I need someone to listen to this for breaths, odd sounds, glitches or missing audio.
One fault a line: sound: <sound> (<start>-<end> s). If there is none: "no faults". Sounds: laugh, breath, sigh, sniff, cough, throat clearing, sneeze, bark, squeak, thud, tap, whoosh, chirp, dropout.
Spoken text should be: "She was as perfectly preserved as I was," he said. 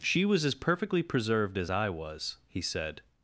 no faults